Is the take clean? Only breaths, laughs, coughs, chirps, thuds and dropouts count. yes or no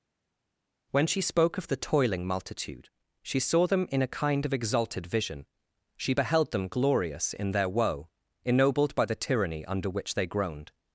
yes